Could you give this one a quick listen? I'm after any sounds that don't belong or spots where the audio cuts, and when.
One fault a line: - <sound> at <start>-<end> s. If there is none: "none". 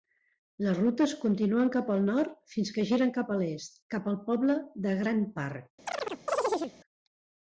- chirp at 5.9-6.8 s